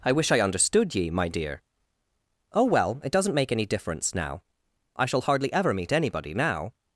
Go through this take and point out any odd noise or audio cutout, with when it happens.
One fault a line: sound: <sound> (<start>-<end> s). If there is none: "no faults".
no faults